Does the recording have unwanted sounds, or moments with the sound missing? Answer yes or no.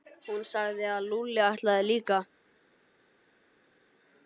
no